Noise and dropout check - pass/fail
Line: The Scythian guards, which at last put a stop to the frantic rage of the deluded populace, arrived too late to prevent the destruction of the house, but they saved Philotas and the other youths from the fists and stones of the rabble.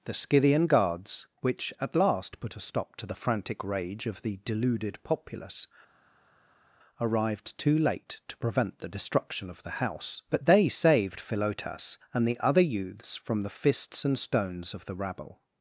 pass